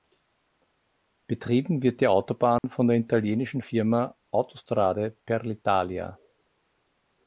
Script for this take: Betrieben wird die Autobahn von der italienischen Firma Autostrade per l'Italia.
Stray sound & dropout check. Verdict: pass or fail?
fail